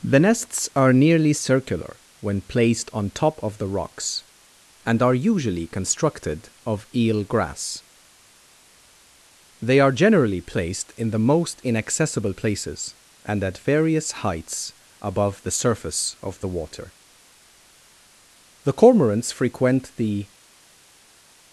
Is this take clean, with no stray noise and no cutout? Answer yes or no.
yes